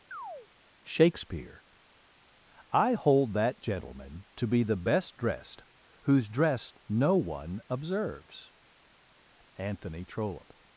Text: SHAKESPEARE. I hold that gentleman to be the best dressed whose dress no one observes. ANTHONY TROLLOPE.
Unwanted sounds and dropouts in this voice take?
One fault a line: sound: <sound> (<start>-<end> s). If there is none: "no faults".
sound: chirp (0.1-0.5 s)